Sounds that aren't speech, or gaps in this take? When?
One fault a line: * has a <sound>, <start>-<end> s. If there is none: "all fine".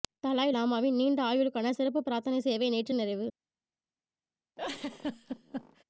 * has a laugh, 4.6-5.8 s